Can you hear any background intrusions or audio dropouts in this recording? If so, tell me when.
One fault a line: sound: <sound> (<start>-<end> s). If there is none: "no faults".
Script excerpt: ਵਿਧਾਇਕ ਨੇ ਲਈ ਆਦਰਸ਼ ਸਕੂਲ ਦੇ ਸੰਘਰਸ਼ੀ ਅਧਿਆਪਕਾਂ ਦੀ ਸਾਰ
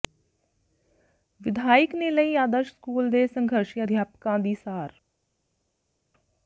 no faults